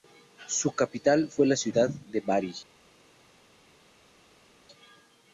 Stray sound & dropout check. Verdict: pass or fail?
pass